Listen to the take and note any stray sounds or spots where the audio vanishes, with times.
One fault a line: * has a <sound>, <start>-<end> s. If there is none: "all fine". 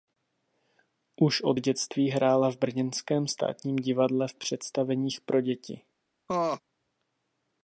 * has a laugh, 6.3-6.6 s